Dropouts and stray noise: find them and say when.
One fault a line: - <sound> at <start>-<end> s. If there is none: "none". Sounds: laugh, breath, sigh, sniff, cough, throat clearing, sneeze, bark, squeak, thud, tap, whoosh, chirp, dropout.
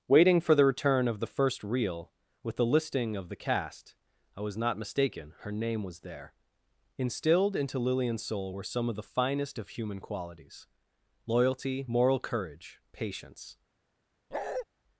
- bark at 14.3-14.7 s